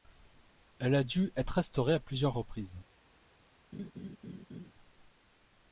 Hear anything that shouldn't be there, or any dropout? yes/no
yes